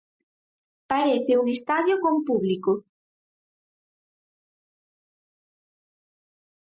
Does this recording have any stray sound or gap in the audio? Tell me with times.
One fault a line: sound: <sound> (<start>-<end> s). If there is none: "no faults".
no faults